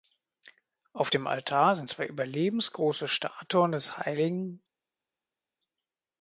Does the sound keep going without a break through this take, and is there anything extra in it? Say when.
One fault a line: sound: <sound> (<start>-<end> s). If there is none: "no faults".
no faults